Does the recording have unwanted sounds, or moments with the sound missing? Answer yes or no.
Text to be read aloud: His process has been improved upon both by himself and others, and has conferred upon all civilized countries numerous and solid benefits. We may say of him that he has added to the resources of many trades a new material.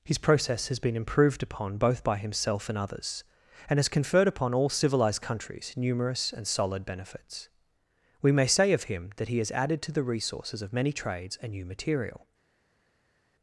no